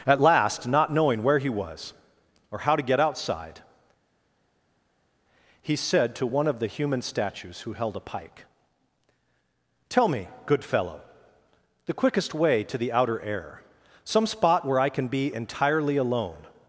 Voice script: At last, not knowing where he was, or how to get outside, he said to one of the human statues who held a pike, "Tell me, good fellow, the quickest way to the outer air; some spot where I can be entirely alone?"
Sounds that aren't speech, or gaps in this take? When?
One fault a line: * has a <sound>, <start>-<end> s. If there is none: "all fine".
all fine